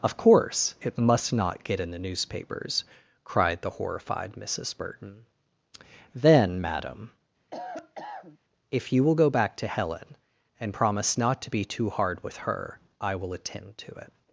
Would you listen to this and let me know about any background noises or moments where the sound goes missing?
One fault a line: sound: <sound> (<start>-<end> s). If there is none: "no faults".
sound: cough (7.5-8.4 s)